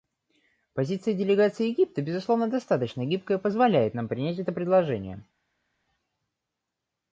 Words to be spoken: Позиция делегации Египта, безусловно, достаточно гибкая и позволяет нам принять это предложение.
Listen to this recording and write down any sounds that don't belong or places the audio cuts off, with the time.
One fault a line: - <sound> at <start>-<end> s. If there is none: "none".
none